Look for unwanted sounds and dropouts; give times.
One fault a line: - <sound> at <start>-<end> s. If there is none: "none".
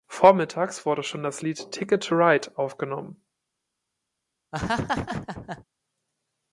- laugh at 4.5-5.6 s